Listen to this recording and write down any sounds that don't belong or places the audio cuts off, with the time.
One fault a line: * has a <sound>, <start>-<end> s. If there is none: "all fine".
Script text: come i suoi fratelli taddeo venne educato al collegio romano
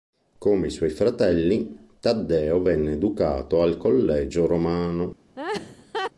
* has a laugh, 5.4-6.1 s